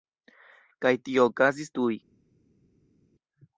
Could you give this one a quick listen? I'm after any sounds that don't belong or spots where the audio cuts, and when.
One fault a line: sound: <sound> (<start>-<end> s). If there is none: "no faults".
no faults